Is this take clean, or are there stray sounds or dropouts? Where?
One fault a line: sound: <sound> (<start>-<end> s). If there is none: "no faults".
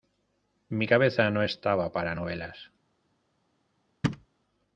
sound: thud (4.0-4.3 s)